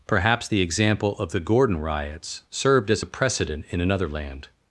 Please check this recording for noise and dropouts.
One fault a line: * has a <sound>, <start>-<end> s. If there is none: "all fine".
all fine